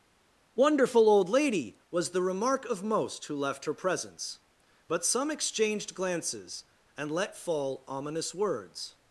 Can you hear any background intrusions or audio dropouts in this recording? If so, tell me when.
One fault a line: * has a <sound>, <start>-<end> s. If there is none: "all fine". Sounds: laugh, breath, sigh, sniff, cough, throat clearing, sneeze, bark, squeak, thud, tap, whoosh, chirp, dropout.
all fine